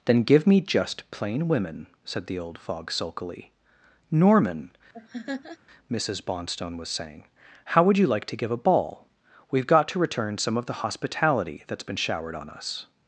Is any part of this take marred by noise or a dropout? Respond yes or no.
yes